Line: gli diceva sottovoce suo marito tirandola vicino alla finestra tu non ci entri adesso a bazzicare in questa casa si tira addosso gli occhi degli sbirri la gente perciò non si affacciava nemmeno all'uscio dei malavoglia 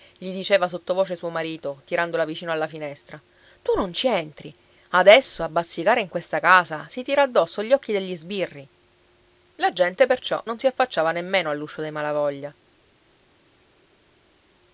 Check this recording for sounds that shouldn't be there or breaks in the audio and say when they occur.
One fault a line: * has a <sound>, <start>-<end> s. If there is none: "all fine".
all fine